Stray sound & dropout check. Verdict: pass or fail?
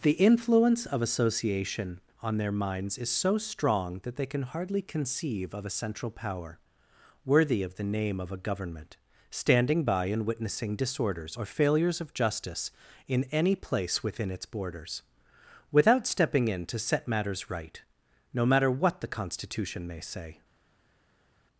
pass